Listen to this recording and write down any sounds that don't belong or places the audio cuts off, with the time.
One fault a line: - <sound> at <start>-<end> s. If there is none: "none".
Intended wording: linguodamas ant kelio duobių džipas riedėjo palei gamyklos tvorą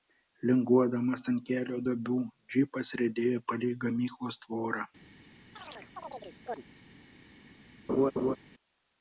- chirp at 5.6-6.6 s
- laugh at 7.9-8.4 s